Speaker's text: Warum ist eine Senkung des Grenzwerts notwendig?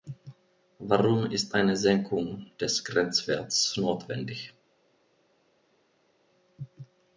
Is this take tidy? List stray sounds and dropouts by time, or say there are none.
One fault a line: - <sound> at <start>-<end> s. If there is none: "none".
none